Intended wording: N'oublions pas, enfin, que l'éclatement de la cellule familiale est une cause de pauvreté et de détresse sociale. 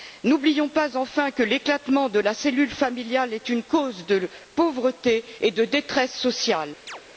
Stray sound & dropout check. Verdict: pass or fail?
fail